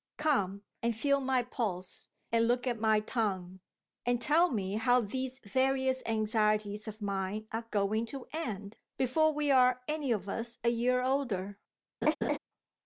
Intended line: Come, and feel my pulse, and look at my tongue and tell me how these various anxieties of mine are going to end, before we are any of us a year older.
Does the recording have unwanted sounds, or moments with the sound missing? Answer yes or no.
yes